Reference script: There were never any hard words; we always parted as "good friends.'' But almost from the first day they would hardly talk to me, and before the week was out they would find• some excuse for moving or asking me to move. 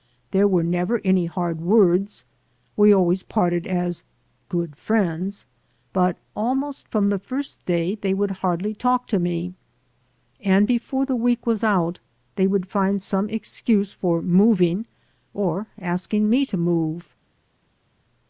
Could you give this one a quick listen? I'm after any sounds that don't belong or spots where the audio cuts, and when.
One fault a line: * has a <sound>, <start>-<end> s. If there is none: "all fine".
all fine